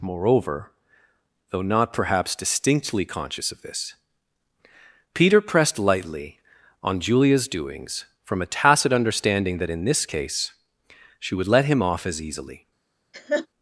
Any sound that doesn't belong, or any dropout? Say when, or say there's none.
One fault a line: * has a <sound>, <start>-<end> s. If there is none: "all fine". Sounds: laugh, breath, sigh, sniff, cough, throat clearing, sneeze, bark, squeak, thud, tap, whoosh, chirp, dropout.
* has a laugh, 13.1-13.5 s